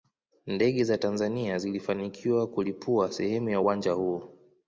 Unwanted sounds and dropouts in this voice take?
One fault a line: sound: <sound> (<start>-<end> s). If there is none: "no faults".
no faults